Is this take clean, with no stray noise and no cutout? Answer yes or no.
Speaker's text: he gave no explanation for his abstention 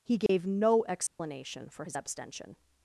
no